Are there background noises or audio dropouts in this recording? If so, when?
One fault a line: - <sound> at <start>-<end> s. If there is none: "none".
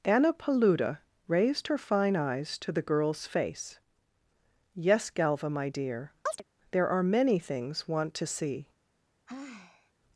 - chirp at 6.3-6.4 s
- sigh at 9.3-9.9 s